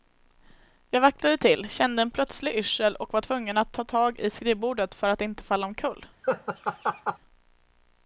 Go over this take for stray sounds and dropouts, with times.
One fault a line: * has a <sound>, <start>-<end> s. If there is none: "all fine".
* has a laugh, 6.2-7.2 s